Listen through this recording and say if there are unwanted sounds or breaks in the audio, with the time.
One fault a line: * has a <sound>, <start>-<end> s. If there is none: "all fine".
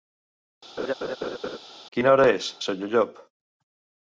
* has a laugh, 0.8-1.6 s